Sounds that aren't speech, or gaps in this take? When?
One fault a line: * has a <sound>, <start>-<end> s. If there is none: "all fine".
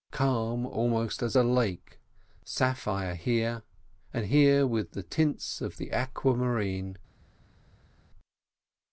all fine